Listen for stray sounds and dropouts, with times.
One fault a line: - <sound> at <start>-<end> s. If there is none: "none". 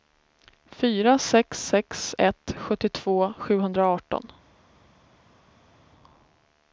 none